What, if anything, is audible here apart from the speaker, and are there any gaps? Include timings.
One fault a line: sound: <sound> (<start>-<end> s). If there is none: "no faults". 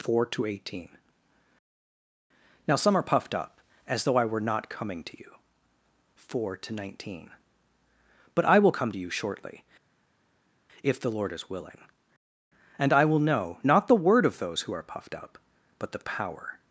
no faults